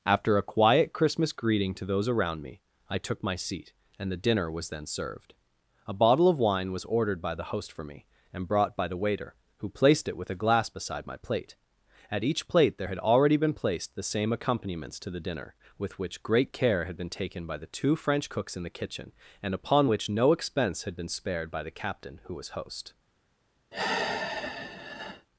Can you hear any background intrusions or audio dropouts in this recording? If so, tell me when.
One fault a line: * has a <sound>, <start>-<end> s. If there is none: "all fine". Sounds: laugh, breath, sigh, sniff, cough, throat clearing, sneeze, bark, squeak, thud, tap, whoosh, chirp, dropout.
* has a sigh, 23.7-25.3 s